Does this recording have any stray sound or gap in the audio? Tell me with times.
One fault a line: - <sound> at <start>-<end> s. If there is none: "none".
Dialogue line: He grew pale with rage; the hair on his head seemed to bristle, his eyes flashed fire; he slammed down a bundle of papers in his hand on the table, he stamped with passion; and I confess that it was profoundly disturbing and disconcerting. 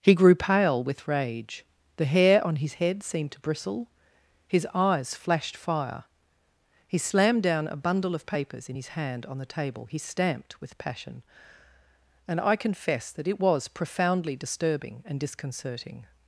none